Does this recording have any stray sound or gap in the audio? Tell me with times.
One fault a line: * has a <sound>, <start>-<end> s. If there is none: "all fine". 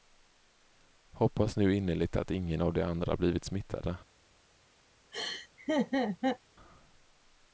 * has a laugh, 5.1-6.4 s